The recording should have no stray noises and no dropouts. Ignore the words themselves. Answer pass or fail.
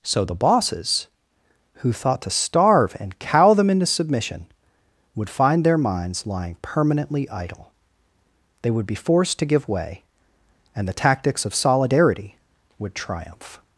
pass